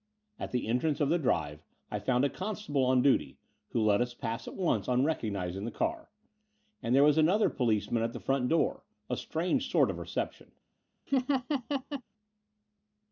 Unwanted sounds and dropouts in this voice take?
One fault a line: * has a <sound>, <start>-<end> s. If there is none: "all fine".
* has a laugh, 11.1-12.0 s